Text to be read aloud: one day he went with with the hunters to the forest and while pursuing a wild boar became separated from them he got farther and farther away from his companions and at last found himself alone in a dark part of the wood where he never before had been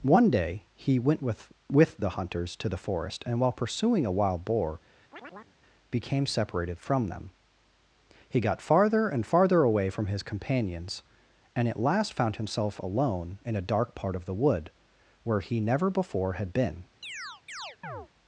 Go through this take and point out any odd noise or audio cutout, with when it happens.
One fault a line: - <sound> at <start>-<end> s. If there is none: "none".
- chirp at 5.1-5.6 s
- chirp at 17.0-18.1 s